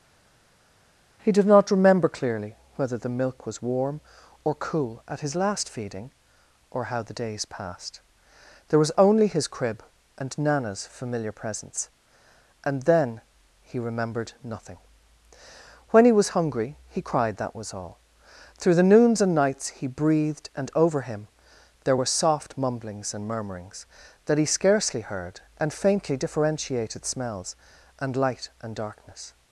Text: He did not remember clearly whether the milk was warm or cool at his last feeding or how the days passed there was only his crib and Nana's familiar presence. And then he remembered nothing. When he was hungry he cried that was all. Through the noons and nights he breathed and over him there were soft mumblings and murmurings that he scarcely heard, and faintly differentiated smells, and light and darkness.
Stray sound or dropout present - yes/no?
no